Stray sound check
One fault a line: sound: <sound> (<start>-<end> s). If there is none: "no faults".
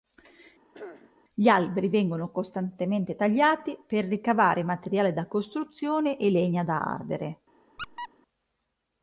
sound: throat clearing (0.7-1.1 s)
sound: squeak (7.8-8.1 s)